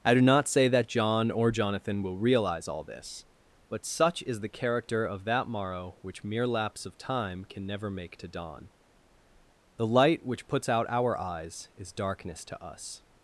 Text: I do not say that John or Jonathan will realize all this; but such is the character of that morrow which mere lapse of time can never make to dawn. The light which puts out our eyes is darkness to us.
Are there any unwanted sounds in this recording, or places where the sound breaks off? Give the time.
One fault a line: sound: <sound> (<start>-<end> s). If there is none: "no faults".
no faults